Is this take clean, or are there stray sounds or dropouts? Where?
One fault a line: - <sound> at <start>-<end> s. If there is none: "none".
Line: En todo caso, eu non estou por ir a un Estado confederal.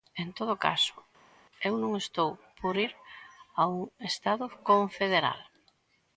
none